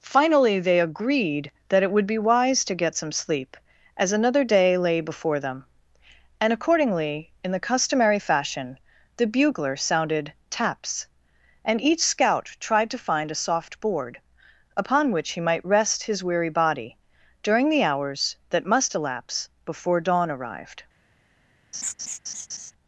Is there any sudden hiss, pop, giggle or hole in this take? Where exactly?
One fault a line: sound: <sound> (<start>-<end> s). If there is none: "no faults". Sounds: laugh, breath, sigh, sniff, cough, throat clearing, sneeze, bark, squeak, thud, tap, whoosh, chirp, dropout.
sound: laugh (21.7-22.7 s)